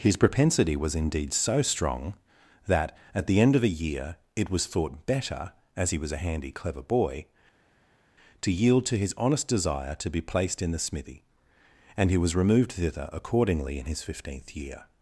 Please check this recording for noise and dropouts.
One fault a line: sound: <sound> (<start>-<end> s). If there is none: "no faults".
no faults